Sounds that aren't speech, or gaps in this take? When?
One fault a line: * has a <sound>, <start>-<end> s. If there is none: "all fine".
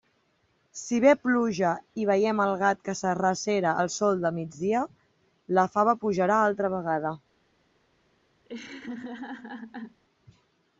* has a laugh, 8.4-10.0 s